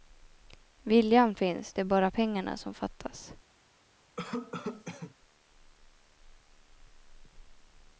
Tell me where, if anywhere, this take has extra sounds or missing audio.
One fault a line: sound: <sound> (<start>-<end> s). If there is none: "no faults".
sound: cough (4.2-5.1 s)